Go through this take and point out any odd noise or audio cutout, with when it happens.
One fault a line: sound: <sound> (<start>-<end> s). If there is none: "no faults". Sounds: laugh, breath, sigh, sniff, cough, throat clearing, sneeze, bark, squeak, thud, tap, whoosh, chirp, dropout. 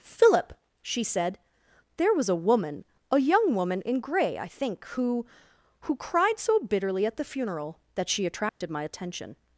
sound: dropout (8.5-8.6 s)